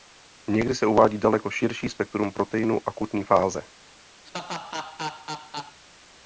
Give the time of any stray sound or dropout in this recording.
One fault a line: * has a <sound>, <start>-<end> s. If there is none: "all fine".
* has a laugh, 4.2-5.8 s